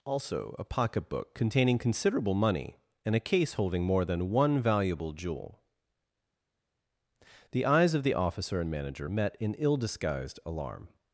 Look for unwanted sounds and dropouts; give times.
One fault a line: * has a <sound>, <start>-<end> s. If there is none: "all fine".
all fine